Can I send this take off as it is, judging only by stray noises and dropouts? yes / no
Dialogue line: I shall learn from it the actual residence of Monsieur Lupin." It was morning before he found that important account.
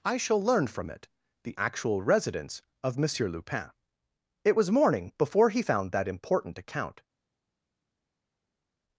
yes